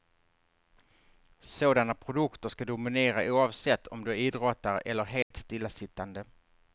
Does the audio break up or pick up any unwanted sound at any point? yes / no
yes